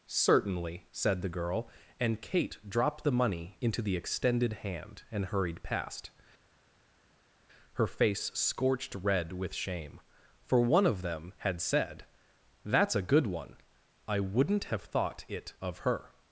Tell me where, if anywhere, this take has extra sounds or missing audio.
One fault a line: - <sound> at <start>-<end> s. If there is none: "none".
none